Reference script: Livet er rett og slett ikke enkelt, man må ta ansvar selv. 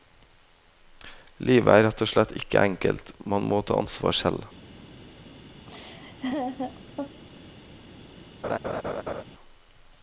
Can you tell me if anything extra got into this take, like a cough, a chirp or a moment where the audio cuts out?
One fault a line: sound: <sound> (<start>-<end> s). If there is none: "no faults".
sound: laugh (5.7-7.2 s)
sound: laugh (8.4-9.2 s)